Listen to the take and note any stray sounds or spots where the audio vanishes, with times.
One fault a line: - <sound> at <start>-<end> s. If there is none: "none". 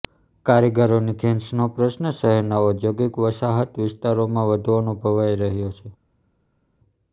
none